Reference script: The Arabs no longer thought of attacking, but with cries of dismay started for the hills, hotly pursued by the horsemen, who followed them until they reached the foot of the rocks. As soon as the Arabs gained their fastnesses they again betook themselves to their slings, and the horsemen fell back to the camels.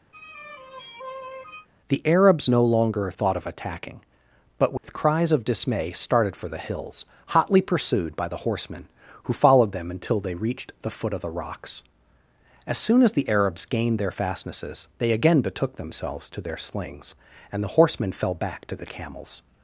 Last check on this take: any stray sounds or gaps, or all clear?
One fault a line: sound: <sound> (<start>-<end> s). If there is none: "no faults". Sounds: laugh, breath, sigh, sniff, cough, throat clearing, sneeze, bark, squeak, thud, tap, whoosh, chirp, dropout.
sound: sigh (0.1-1.7 s)
sound: dropout (4.8-4.8 s)